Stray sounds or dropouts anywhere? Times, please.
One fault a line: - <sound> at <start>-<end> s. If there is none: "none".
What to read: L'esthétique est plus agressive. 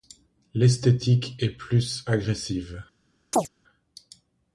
- chirp at 3.3-3.5 s